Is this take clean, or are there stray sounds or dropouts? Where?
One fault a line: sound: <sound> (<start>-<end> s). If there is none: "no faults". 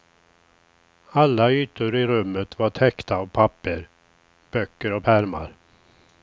no faults